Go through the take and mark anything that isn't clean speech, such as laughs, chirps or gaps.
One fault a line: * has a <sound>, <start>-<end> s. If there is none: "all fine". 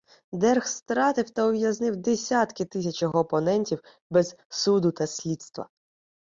all fine